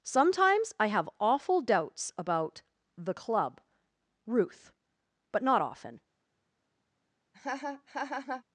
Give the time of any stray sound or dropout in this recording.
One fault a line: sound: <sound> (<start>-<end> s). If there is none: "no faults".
sound: laugh (7.3-8.4 s)